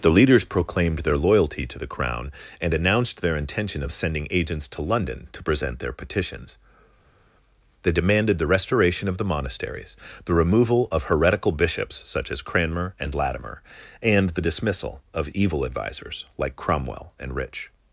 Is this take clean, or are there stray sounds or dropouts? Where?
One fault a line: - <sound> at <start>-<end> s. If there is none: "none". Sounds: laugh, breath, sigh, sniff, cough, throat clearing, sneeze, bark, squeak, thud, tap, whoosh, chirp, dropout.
none